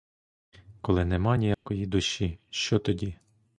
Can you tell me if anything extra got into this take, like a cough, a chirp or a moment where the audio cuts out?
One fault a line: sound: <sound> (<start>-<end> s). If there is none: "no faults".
sound: dropout (1.5-1.7 s)